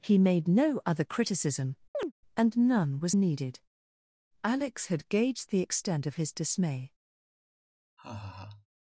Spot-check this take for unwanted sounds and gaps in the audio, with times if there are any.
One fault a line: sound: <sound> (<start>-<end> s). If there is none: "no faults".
sound: chirp (1.9-2.1 s)
sound: laugh (8.0-8.7 s)